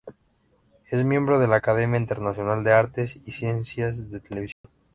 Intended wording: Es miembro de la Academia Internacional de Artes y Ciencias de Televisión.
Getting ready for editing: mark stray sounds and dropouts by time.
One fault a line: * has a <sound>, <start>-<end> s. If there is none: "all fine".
* has a dropout, 4.5-4.6 s